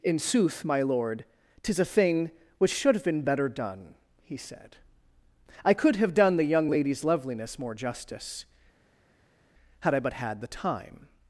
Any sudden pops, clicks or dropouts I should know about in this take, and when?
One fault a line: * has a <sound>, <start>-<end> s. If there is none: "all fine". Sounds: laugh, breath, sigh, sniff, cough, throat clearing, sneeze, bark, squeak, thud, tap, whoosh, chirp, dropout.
all fine